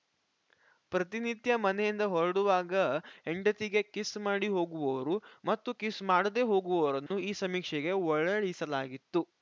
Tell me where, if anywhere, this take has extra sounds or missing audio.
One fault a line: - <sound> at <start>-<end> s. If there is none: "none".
- dropout at 7.1-7.1 s